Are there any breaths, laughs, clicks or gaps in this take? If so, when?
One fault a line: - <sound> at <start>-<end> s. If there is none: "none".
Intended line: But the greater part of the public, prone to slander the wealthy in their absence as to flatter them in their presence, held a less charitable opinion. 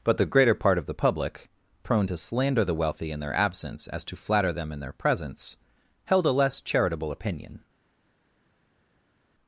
none